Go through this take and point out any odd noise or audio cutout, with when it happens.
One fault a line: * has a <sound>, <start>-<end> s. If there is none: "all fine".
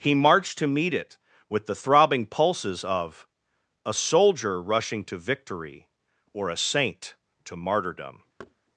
* has a thud, 8.4-8.5 s